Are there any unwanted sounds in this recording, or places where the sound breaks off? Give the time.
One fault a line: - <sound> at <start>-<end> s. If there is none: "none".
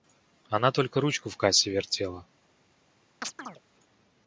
- chirp at 3.2-3.6 s